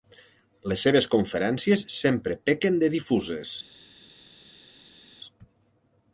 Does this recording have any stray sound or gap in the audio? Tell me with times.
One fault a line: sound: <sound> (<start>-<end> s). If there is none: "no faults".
no faults